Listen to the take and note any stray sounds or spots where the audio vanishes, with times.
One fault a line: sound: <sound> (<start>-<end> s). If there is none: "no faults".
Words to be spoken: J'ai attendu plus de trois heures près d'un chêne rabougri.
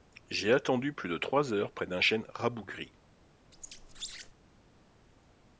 sound: squeak (3.5-4.3 s)